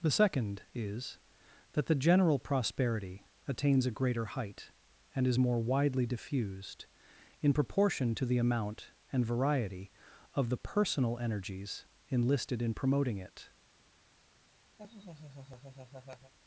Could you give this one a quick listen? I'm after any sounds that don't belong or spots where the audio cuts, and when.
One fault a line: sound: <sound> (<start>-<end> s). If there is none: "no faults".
sound: laugh (14.8-16.3 s)